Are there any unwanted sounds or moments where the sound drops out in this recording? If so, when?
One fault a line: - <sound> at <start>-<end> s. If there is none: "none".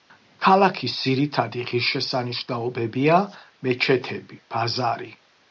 none